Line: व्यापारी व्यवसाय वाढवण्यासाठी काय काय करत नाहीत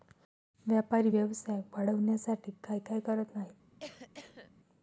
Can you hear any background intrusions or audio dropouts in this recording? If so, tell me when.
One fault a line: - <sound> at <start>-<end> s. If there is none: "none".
- cough at 3.8-4.5 s